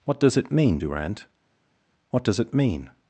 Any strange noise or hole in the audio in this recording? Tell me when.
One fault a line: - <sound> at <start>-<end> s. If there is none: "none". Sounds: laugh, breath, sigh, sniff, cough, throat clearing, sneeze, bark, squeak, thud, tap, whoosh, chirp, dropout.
none